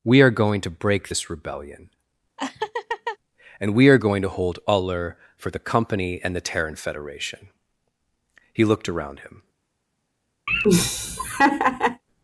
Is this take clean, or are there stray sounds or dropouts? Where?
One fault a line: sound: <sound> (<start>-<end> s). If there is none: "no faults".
sound: laugh (2.4-3.2 s)
sound: laugh (10.5-12.0 s)